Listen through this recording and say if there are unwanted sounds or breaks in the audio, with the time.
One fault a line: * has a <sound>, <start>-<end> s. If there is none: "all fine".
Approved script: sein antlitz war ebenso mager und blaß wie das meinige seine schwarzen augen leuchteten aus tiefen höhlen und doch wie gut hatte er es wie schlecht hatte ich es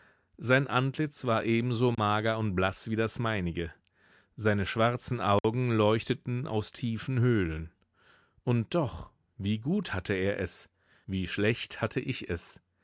* has a dropout, 1.9-2.0 s
* has a dropout, 5.4-5.4 s